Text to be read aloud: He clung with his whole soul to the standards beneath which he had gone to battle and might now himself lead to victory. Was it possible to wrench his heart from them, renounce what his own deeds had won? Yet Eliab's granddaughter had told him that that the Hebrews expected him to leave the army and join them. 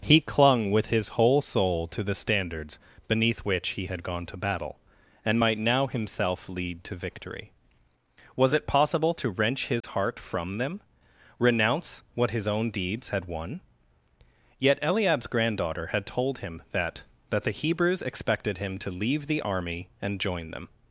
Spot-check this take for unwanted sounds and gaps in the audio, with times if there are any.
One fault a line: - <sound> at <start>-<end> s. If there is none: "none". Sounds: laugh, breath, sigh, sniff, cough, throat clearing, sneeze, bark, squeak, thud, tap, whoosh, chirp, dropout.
- dropout at 9.8-9.8 s